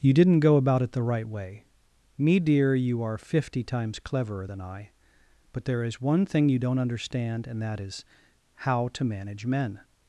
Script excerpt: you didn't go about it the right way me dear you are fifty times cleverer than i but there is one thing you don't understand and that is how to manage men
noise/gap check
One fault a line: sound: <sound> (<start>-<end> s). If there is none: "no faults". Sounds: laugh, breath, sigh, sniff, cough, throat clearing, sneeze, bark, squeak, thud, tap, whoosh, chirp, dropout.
no faults